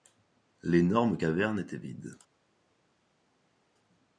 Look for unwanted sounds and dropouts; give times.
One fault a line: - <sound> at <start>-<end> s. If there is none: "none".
none